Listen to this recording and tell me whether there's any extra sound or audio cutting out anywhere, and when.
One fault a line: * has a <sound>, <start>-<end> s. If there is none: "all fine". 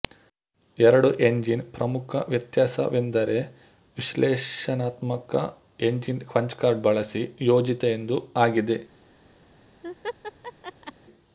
* has a laugh, 9.8-10.9 s